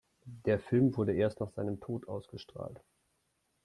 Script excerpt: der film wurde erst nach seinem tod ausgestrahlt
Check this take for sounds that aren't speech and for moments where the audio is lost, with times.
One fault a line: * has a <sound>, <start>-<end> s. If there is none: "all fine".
all fine